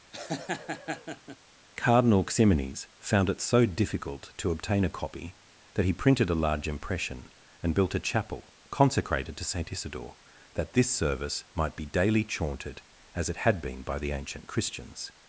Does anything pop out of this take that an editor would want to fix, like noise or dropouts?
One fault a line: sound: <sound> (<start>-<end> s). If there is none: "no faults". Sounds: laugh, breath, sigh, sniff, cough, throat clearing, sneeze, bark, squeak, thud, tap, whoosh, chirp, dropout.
sound: laugh (0.1-1.4 s)